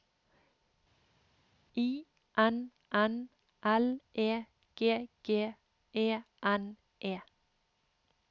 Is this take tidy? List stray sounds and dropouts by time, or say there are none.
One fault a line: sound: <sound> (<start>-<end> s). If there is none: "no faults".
no faults